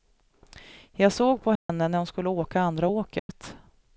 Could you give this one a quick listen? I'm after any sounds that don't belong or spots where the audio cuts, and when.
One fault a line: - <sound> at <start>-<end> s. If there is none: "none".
- dropout at 1.6-1.7 s
- dropout at 3.2-3.3 s